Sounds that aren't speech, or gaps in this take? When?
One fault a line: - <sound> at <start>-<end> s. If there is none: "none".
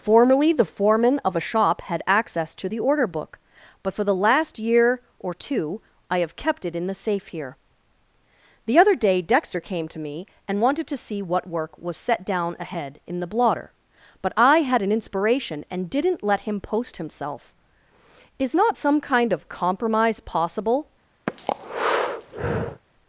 - breath at 21.3-22.8 s